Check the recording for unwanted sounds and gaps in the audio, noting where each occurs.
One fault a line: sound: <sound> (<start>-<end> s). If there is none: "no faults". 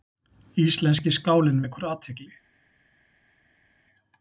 no faults